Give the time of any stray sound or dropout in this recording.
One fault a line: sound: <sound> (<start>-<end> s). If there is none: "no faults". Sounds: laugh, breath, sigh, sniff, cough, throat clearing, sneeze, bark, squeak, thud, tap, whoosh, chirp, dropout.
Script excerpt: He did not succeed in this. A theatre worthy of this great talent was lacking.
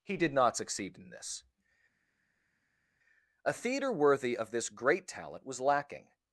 no faults